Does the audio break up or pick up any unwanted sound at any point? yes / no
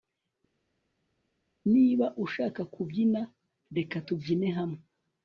no